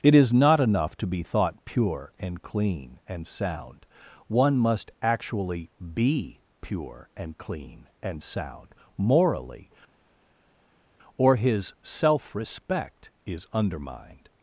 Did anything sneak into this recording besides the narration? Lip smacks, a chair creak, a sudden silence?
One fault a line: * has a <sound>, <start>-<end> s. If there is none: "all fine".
all fine